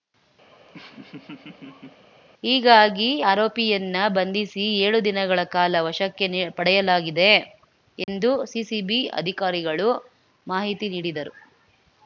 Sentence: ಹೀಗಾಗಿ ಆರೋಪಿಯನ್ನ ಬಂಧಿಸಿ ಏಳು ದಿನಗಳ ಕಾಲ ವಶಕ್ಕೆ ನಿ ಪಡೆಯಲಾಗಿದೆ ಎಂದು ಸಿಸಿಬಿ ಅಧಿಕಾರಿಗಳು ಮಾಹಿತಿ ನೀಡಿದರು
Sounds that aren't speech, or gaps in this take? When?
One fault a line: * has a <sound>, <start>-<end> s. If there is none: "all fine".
* has a laugh, 0.5-2.1 s
* has a dropout, 8.0-8.1 s